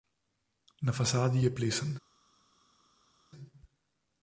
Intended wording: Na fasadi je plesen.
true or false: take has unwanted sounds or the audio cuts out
false